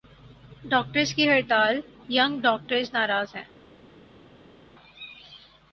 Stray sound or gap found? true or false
false